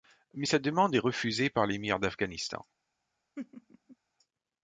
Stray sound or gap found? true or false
true